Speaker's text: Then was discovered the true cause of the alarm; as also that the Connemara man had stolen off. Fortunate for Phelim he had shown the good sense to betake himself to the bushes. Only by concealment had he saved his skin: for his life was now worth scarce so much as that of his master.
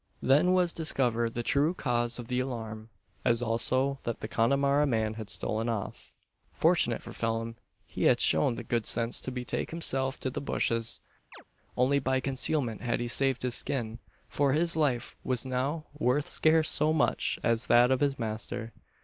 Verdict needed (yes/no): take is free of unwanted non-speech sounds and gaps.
no